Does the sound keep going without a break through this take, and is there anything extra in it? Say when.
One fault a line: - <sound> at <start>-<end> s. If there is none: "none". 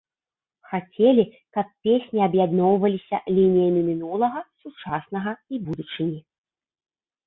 none